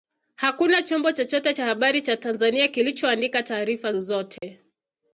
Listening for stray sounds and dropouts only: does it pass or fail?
fail